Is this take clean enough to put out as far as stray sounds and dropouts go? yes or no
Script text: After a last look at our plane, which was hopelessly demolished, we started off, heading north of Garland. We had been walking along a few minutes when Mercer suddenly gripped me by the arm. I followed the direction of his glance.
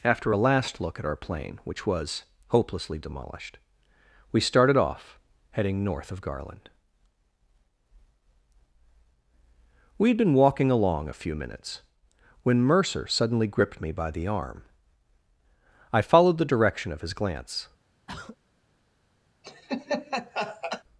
no